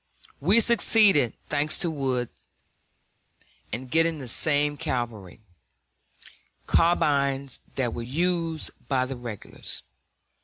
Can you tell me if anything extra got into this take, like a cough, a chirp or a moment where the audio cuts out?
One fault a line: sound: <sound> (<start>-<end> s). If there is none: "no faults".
no faults